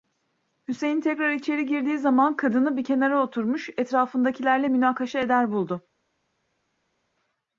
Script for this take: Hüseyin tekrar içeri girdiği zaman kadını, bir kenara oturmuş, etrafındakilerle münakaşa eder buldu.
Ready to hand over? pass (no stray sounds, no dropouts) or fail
pass